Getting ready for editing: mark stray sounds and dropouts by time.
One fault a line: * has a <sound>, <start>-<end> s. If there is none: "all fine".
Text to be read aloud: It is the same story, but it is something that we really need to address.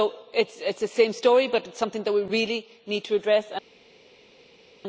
all fine